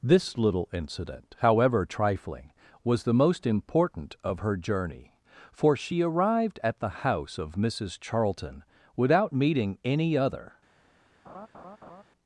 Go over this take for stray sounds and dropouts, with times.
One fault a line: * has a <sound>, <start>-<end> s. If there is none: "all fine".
* has a laugh, 11.3-12.0 s